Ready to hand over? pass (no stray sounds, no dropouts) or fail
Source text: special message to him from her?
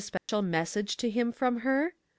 fail